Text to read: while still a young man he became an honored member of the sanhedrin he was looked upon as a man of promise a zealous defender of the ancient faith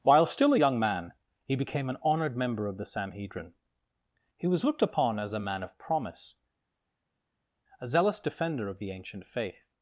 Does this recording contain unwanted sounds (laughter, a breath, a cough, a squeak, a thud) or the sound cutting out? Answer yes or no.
no